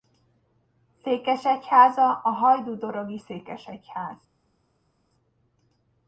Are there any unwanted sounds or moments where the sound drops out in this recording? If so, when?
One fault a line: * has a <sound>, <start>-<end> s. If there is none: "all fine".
all fine